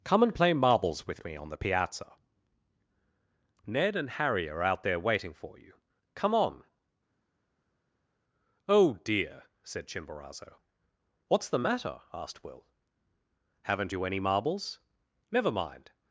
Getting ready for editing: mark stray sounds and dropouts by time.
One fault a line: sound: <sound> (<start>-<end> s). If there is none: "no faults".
no faults